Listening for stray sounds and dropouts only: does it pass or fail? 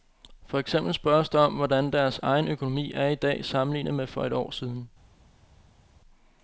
pass